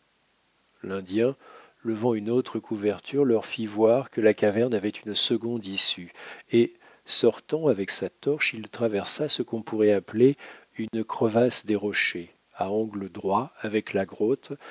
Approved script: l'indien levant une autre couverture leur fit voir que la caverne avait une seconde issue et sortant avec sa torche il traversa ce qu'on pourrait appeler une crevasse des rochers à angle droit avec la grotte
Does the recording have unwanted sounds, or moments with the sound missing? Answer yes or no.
yes